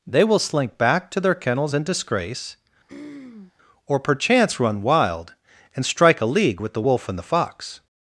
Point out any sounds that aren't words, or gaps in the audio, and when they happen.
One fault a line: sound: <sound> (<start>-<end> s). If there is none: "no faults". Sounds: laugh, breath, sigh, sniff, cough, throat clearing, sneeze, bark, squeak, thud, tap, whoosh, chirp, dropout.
sound: throat clearing (2.9-3.5 s)